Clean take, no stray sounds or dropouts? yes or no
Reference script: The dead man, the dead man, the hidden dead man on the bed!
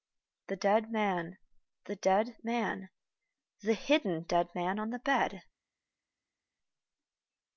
yes